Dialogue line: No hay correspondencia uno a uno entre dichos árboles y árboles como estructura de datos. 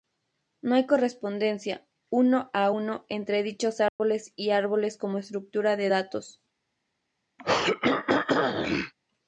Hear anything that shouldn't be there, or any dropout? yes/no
yes